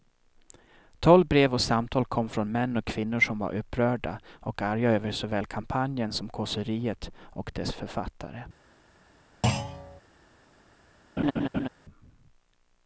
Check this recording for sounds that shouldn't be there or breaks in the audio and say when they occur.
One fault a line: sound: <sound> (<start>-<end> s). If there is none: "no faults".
sound: thud (9.4-10.0 s)
sound: laugh (11.2-11.7 s)